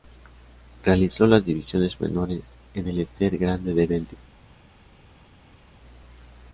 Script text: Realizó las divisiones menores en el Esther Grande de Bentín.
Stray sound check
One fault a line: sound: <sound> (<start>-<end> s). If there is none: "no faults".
no faults